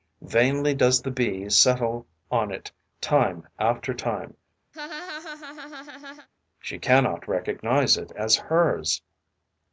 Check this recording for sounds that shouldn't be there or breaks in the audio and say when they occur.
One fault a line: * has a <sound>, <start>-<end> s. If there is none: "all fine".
* has a laugh, 4.7-6.3 s